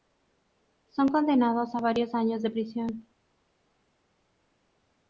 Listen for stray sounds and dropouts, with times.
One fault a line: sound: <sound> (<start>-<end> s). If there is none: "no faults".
no faults